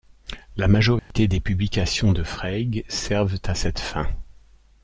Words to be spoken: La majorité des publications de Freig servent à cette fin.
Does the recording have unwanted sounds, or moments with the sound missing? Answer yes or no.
yes